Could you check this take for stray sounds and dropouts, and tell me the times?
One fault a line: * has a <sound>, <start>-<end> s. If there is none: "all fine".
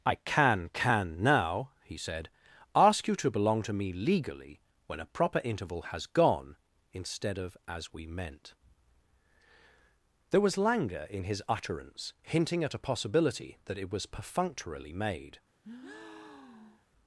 * has a breath, 15.6-16.9 s